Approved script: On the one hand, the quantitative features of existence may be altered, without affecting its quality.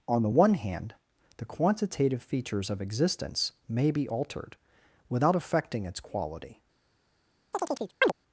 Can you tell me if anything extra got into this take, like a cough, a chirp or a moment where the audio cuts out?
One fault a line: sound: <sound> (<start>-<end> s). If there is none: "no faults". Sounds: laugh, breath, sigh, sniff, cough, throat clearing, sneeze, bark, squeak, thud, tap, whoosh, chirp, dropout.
sound: chirp (7.5-8.1 s)